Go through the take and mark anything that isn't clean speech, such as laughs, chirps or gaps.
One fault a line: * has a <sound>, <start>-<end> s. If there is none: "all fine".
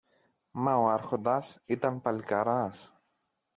all fine